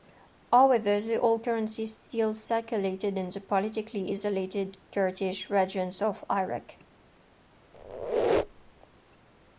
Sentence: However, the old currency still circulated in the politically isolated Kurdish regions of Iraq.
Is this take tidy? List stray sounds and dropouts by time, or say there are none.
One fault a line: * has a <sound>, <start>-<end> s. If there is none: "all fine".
* has a squeak, 7.7-8.9 s